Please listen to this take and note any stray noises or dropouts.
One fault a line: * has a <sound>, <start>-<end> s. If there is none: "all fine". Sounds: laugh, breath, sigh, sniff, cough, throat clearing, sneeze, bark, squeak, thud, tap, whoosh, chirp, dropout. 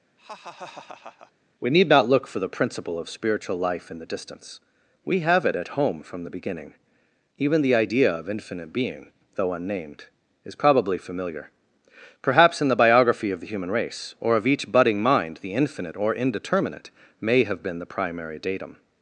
* has a laugh, 0.2-1.3 s